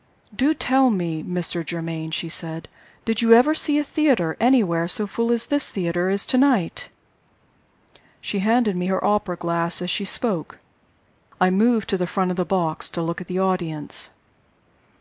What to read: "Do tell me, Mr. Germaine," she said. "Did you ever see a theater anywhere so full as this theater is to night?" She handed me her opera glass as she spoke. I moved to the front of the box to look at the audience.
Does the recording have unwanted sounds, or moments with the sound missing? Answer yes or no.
no